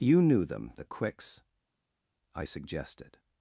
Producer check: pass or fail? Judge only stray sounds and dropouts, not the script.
pass